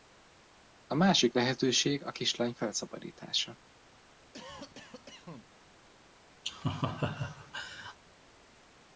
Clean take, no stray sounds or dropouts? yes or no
no